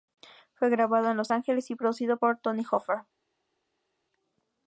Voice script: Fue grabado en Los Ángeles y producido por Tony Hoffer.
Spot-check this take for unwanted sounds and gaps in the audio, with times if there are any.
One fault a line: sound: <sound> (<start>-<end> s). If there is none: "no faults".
no faults